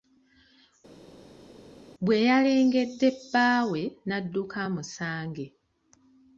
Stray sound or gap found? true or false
false